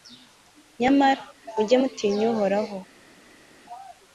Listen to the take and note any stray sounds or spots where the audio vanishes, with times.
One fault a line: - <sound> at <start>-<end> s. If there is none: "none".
none